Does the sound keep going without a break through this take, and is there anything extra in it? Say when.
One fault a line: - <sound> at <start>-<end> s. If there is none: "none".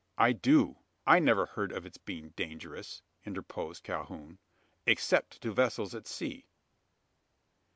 none